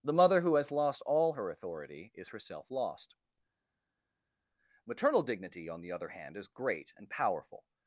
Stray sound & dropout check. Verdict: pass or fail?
pass